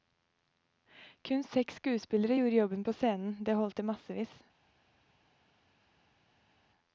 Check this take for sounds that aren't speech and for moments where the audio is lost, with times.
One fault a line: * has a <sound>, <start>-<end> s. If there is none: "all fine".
all fine